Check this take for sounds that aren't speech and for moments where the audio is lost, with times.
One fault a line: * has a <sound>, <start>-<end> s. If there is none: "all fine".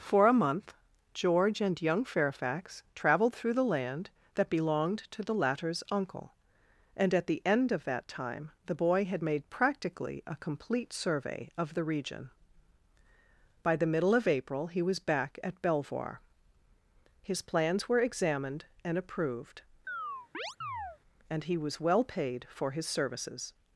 * has a chirp, 19.9-21.0 s